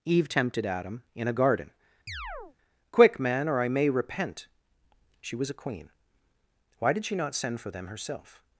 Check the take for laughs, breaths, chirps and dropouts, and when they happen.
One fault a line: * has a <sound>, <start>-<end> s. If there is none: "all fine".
* has a chirp, 2.1-2.6 s